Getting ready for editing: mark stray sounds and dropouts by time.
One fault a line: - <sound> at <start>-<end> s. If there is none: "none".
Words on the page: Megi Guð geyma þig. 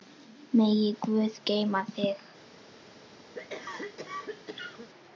- cough at 3.3-4.9 s